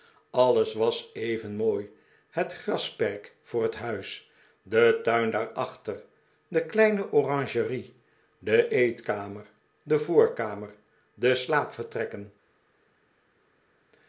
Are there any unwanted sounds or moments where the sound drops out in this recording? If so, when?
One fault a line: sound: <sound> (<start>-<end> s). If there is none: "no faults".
no faults